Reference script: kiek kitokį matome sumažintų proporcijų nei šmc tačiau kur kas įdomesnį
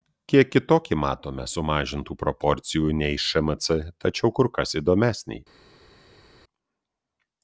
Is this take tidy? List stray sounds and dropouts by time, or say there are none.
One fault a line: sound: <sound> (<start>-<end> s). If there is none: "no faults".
no faults